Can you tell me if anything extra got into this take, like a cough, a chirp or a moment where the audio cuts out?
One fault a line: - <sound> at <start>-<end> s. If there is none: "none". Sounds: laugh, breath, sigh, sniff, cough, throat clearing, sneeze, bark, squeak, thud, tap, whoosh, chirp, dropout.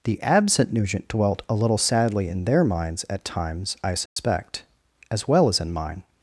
- dropout at 4.1-4.2 s